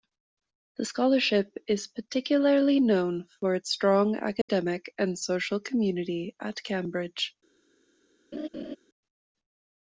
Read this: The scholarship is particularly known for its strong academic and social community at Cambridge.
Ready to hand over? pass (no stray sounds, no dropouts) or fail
fail